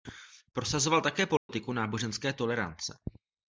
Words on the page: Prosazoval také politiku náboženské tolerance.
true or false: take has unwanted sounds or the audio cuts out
true